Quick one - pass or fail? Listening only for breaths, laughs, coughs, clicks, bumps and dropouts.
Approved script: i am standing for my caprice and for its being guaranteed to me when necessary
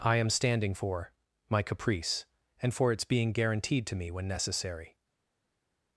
pass